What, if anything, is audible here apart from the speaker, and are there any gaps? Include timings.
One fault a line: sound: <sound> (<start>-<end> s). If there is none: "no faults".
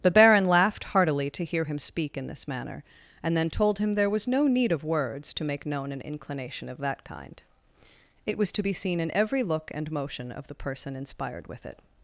no faults